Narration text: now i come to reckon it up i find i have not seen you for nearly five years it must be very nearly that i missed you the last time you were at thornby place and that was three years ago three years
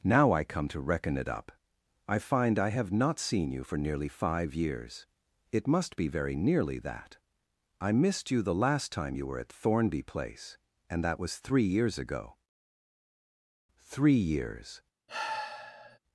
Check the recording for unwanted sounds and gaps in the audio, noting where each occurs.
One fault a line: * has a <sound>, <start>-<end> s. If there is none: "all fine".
* has a sigh, 15.1-16.0 s